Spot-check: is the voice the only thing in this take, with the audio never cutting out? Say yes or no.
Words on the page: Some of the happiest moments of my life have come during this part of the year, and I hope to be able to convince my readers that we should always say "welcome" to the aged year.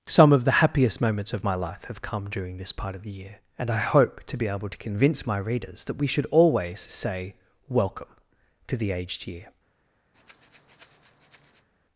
no